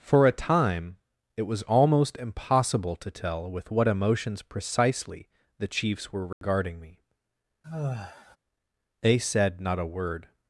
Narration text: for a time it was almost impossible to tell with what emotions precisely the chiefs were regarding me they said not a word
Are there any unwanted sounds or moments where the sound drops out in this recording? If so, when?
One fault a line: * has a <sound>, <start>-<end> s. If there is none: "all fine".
* has a dropout, 6.3-6.4 s
* has a sigh, 7.6-8.4 s